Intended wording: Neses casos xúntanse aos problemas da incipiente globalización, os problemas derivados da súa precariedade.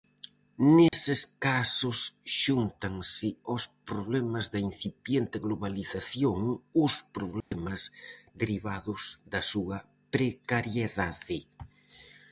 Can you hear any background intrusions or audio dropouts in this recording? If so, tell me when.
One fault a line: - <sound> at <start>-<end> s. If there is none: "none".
- dropout at 0.9-0.9 s
- dropout at 7.4-7.5 s